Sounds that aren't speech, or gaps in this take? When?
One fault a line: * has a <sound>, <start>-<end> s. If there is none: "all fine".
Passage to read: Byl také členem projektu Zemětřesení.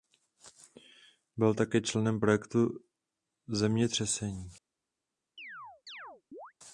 * has a chirp, 5.4-6.5 s